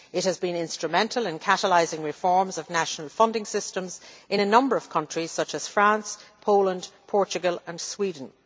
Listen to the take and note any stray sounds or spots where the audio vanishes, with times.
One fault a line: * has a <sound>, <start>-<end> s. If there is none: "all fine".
all fine